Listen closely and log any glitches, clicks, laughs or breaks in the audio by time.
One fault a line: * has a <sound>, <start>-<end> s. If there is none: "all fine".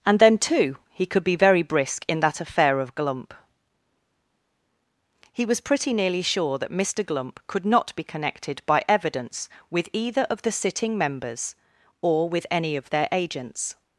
all fine